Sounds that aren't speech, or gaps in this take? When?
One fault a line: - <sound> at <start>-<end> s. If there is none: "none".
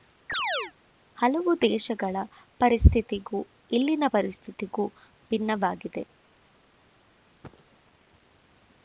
- chirp at 0.3-0.7 s
- cough at 7.4-7.8 s